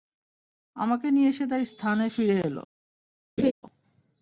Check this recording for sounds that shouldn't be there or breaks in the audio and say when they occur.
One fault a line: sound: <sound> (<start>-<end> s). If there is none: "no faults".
sound: laugh (3.4-3.5 s)